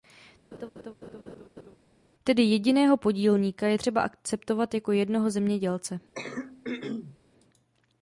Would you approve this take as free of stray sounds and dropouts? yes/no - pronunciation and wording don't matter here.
no